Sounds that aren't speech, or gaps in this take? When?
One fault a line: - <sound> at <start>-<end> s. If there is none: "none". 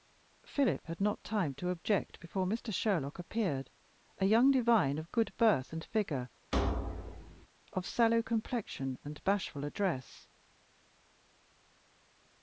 - thud at 6.5-7.5 s